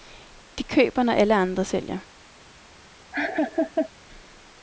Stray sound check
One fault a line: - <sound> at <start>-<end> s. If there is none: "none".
- laugh at 3.1-3.9 s